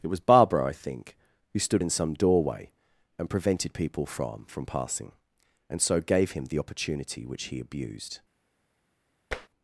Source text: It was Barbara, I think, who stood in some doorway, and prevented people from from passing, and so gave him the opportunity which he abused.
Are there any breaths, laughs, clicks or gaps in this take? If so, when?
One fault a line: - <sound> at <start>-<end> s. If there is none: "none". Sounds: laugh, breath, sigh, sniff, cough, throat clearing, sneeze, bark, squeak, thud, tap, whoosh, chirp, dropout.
- tap at 9.3-9.5 s